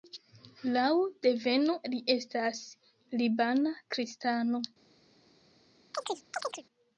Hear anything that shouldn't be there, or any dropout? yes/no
yes